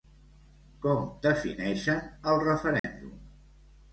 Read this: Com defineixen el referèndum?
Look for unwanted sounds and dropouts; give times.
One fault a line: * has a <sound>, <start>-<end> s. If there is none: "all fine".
* has a dropout, 2.8-2.8 s